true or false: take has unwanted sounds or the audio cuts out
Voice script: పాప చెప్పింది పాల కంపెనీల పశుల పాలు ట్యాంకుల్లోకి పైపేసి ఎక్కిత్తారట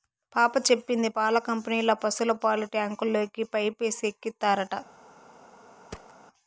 true